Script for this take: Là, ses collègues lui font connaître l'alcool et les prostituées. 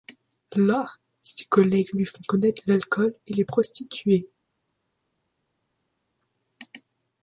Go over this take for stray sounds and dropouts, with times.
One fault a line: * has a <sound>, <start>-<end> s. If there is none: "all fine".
all fine